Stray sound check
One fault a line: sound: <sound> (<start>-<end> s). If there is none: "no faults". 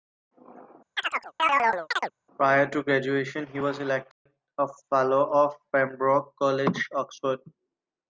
sound: chirp (1.0-2.1 s)
sound: dropout (4.1-4.3 s)